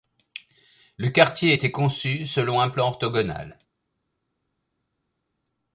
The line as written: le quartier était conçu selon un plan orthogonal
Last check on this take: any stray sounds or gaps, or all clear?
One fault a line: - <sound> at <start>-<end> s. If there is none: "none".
none